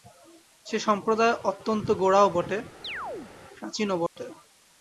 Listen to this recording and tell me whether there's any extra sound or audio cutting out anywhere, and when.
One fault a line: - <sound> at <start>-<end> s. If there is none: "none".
- chirp at 2.8-3.3 s
- dropout at 4.1-4.2 s